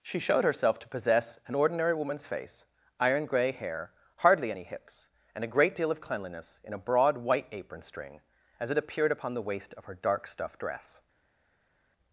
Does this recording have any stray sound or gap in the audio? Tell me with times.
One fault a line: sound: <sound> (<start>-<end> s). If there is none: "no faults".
no faults